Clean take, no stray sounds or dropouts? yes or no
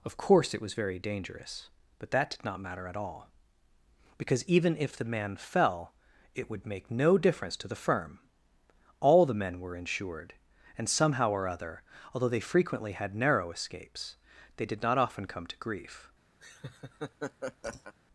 no